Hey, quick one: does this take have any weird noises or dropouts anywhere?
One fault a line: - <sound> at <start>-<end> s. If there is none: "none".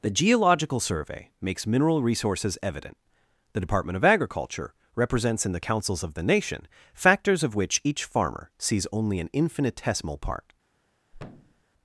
- thud at 11.1-11.6 s